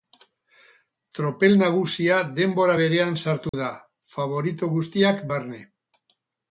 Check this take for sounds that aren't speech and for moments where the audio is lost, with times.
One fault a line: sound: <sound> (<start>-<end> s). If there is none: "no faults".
sound: dropout (3.5-3.5 s)